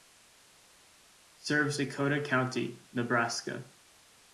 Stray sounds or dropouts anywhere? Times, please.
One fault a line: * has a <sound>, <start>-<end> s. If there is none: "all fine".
all fine